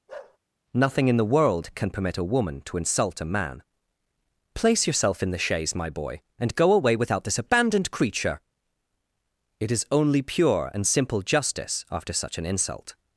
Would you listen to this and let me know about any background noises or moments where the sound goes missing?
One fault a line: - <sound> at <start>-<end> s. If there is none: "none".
- bark at 0.1-0.4 s